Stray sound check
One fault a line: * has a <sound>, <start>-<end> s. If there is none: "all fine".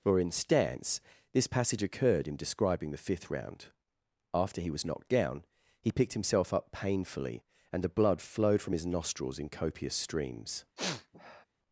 * has a sniff, 10.8-11.5 s